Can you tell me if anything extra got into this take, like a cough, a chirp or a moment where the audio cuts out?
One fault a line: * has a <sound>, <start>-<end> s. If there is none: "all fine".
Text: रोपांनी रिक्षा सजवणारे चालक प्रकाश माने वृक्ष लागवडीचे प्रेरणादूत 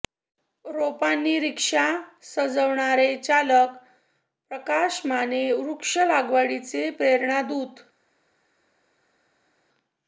all fine